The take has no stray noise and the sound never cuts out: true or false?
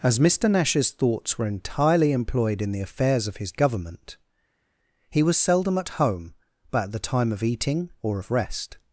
true